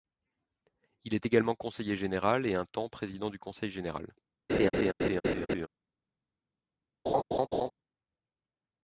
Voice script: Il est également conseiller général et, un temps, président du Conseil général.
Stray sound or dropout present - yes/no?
yes